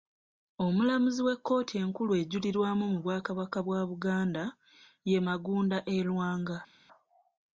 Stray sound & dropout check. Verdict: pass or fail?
pass